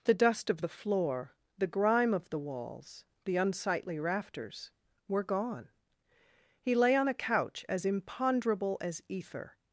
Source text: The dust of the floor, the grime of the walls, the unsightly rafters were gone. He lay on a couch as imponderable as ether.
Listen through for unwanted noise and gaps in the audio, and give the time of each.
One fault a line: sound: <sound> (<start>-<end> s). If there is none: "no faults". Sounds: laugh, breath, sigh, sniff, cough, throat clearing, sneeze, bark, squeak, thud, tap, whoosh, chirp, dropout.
no faults